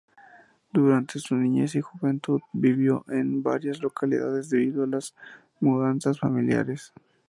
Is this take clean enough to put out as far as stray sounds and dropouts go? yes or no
yes